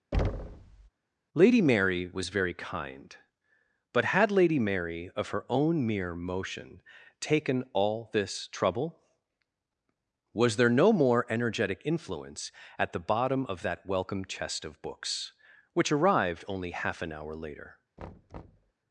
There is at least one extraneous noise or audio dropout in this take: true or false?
true